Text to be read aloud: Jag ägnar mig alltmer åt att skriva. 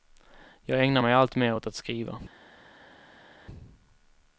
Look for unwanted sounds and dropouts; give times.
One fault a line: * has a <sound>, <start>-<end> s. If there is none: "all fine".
all fine